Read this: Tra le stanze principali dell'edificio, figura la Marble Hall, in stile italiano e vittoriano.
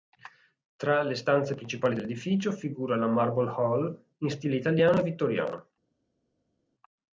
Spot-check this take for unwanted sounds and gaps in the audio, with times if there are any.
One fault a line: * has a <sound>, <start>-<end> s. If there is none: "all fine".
all fine